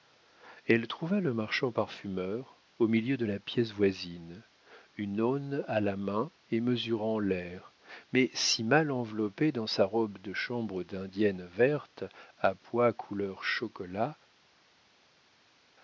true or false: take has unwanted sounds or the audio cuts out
false